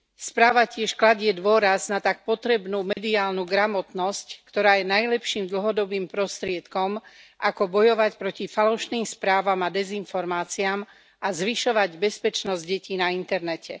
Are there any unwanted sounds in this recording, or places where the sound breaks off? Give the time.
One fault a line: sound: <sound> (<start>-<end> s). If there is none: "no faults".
sound: dropout (2.9-3.0 s)